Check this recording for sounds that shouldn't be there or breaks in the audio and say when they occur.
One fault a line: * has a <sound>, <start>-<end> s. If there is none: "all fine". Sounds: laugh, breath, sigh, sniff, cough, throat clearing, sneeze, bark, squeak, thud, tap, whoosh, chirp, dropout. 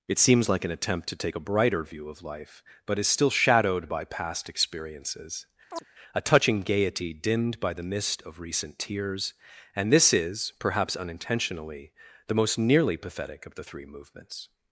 * has a chirp, 5.7-5.8 s